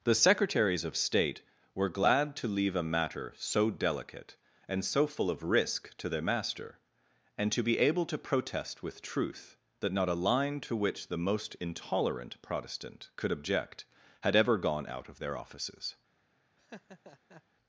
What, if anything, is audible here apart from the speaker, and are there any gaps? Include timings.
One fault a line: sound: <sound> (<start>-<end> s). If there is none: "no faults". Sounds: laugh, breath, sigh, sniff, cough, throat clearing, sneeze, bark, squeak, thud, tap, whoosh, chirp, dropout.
sound: laugh (16.6-17.4 s)